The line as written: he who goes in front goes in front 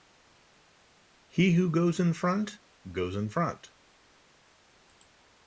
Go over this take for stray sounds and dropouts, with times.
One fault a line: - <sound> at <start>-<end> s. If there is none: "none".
none